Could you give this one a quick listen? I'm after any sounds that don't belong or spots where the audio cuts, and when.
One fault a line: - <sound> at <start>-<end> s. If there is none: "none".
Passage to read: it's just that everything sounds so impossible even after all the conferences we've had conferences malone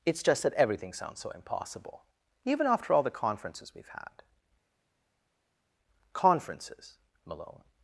none